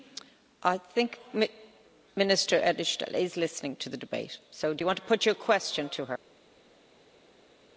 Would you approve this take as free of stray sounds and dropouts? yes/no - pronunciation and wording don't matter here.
yes